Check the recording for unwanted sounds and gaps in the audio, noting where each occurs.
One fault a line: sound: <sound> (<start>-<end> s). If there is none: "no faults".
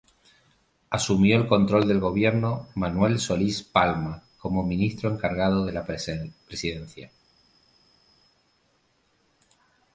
no faults